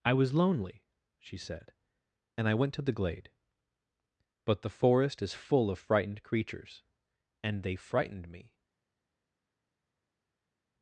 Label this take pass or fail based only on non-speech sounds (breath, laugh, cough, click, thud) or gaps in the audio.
pass